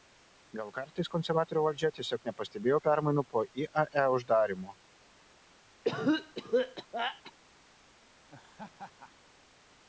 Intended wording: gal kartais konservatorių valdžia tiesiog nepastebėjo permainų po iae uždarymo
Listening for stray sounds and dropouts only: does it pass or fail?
fail